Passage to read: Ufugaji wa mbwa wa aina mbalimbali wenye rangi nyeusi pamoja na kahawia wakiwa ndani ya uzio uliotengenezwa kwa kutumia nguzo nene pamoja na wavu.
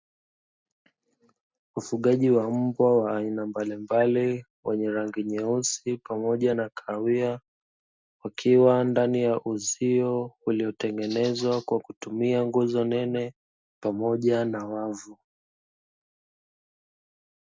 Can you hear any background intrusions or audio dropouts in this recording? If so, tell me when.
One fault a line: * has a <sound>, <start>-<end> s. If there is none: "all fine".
all fine